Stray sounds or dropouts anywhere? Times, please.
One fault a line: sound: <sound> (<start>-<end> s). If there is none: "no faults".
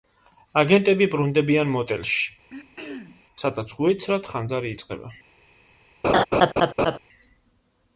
sound: throat clearing (2.5-3.2 s)
sound: laugh (6.0-7.0 s)